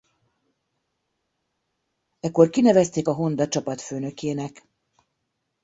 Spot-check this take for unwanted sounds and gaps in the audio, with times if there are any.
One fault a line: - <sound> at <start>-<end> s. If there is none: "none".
none